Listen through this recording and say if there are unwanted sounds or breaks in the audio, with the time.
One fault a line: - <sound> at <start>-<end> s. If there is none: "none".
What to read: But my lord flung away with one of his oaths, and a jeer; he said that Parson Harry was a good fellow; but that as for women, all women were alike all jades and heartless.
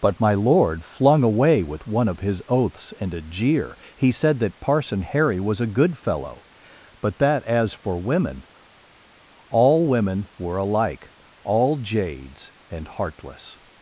none